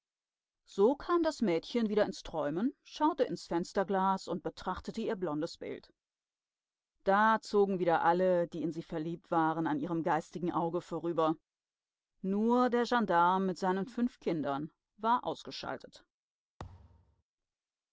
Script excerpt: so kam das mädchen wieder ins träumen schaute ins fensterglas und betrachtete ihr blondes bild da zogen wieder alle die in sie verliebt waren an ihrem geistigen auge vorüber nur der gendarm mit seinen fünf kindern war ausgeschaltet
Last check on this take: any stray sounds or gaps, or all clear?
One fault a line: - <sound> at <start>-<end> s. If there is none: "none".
- thud at 16.6-17.2 s